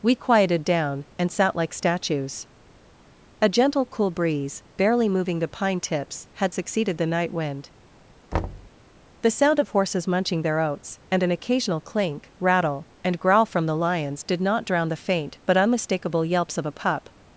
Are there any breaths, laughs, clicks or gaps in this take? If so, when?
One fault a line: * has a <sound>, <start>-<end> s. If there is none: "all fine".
* has a thud, 8.3-8.7 s